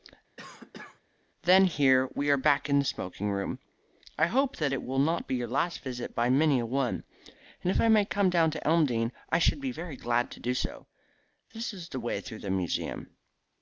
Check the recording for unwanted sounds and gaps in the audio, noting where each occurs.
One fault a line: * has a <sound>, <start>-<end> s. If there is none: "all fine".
* has a cough, 0.4-1.0 s